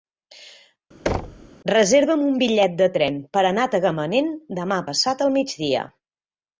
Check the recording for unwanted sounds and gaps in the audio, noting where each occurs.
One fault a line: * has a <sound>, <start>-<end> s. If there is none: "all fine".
* has a thud, 1.1-1.5 s